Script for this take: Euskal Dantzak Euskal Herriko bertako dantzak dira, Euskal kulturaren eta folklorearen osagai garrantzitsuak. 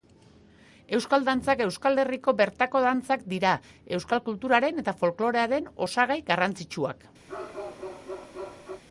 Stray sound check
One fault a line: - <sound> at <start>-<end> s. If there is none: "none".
- bark at 7.3-8.8 s